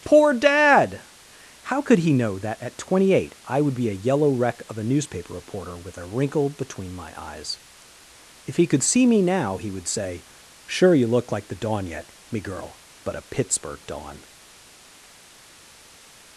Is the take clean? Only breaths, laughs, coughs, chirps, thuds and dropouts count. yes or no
yes